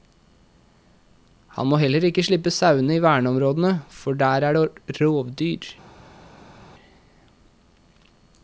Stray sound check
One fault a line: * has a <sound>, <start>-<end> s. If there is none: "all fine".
all fine